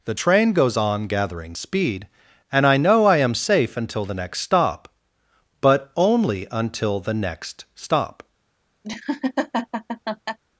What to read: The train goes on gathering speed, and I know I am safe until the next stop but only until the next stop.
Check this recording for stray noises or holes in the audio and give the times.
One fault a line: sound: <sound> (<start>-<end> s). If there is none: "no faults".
sound: laugh (8.8-10.4 s)